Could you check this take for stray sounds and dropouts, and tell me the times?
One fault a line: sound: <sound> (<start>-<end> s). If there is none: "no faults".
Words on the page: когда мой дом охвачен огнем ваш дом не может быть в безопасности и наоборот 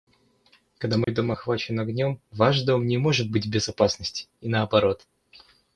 sound: dropout (1.0-1.1 s)